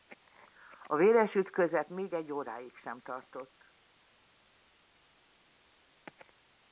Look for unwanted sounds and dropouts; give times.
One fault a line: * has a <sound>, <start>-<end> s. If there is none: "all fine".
all fine